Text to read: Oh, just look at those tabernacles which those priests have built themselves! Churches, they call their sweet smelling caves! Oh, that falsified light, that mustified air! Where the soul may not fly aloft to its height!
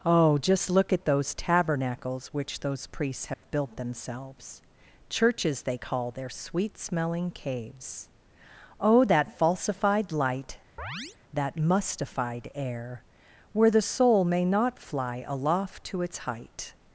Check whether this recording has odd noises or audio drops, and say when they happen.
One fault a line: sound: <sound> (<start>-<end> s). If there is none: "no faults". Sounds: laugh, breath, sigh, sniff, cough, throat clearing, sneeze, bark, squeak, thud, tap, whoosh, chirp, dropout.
sound: dropout (3.3-3.4 s)
sound: chirp (10.8-11.2 s)